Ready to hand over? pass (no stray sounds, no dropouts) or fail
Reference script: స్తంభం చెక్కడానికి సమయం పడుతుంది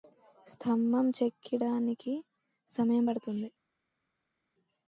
pass